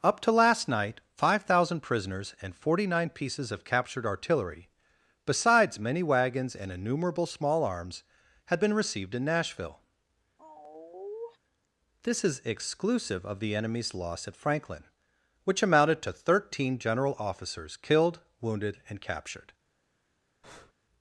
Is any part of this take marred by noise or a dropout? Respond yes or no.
yes